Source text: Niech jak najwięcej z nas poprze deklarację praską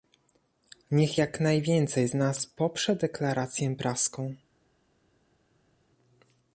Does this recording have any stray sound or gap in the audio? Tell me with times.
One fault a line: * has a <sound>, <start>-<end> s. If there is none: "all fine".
all fine